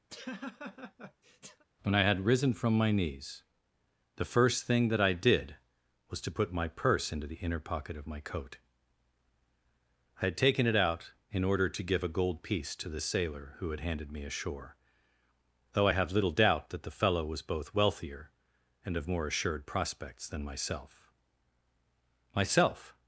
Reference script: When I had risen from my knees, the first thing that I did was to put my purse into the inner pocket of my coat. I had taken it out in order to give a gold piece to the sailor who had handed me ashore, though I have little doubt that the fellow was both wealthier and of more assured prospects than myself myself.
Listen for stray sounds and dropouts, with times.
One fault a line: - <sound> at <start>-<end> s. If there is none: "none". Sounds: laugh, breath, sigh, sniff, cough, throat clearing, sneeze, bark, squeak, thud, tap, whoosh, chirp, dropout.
- laugh at 0.1-1.6 s